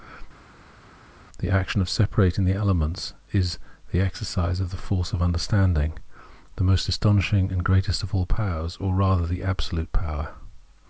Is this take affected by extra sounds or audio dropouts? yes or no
no